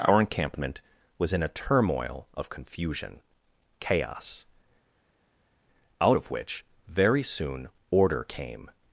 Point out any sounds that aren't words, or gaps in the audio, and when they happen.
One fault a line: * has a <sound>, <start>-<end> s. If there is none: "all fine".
all fine